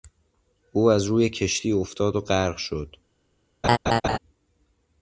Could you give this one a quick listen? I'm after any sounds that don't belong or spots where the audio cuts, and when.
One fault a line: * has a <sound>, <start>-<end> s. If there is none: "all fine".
* has a laugh, 3.6-4.2 s